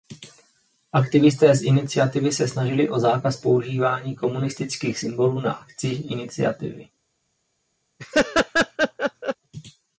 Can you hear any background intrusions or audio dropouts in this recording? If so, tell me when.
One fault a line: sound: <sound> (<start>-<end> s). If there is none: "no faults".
sound: laugh (8.0-9.4 s)